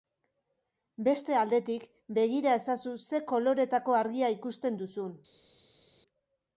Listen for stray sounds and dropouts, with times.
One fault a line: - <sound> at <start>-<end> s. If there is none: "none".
none